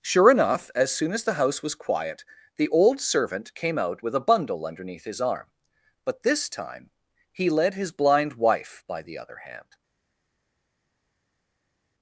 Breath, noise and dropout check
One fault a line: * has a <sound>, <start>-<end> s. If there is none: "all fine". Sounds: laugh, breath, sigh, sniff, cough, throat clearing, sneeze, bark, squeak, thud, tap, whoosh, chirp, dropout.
all fine